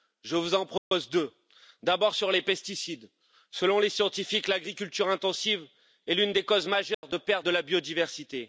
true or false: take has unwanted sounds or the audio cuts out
true